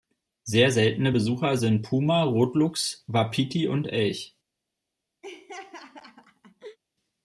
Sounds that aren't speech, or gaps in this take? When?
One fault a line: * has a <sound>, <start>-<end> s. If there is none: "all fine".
* has a laugh, 5.2-6.8 s